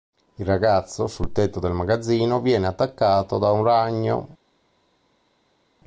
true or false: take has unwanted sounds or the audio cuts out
false